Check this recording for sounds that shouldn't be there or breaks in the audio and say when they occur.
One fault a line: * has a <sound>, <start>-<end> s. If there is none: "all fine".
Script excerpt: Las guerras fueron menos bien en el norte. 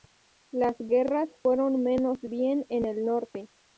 all fine